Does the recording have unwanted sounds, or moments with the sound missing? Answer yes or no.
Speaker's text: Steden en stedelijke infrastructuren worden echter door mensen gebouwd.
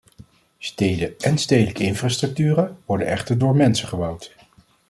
no